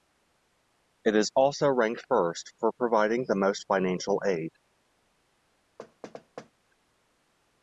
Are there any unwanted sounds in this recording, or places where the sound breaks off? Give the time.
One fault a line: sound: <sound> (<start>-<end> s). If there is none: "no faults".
sound: thud (5.8-6.5 s)